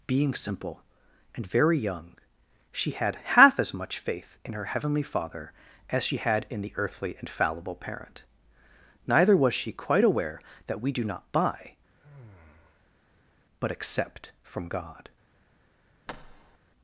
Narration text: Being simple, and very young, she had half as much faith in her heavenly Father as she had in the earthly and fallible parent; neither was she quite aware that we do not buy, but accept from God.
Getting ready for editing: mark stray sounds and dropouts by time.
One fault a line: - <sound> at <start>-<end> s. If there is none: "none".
- sigh at 11.9-13.4 s
- thud at 16.1-16.6 s